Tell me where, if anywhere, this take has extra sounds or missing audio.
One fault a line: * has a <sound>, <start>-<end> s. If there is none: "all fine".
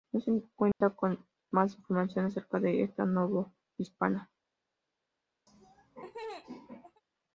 * has a dropout, 0.7-0.8 s
* has a laugh, 5.5-7.0 s